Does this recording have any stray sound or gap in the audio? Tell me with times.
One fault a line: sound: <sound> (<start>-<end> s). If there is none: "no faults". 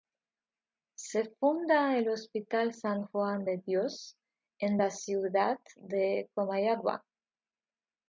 no faults